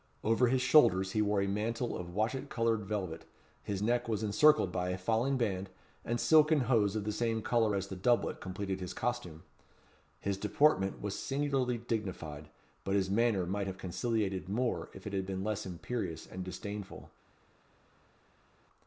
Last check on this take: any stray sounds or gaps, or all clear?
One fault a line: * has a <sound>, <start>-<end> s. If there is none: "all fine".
all fine